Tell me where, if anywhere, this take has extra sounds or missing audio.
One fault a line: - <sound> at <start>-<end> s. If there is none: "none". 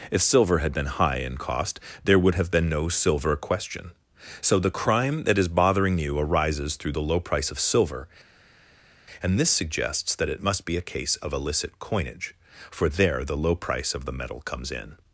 none